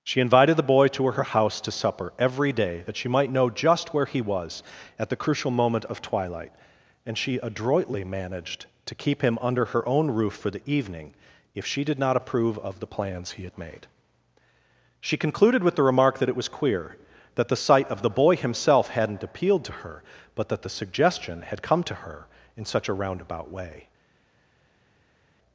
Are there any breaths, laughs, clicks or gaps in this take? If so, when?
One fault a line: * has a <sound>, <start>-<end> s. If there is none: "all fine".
all fine